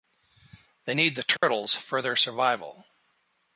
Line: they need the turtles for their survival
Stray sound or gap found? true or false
true